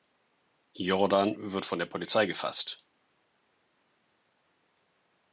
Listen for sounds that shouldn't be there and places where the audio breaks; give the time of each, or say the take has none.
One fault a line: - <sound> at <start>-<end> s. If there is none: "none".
none